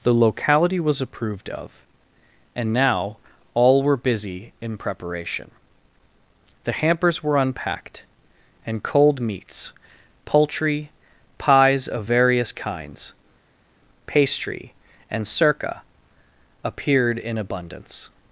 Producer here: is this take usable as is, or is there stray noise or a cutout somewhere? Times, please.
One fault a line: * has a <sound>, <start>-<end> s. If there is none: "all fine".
all fine